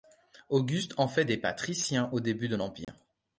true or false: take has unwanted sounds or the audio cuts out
true